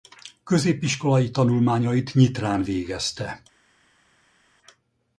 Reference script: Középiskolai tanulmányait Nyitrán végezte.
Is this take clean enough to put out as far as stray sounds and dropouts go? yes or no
yes